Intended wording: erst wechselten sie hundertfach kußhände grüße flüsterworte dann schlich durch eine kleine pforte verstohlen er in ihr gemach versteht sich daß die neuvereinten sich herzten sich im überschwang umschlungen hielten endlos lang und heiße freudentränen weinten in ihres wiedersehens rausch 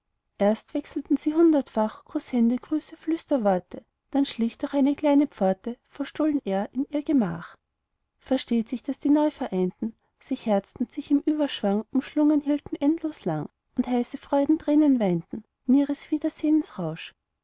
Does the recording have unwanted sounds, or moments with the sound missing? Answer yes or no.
no